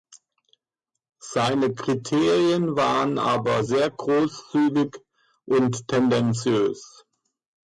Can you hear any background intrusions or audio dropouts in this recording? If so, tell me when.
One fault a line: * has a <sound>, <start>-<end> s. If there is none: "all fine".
all fine